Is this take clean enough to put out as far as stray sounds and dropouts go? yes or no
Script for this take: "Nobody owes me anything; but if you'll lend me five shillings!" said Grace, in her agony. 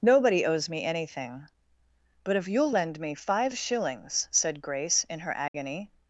no